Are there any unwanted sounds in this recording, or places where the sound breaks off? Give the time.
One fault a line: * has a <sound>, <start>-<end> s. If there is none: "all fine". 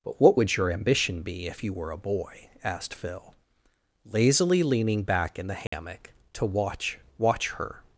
* has a dropout, 5.7-5.7 s